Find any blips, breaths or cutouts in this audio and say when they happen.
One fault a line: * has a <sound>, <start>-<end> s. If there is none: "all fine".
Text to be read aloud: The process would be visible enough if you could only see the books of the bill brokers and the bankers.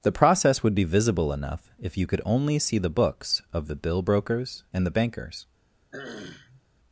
* has a throat clearing, 5.9-6.6 s